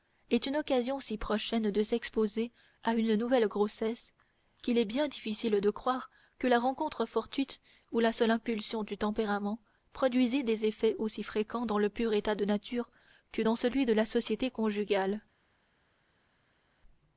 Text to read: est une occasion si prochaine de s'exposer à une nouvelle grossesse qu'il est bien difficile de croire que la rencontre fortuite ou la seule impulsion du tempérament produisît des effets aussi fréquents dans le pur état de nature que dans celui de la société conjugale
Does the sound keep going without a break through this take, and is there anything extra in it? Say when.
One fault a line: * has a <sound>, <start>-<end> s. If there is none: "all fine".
all fine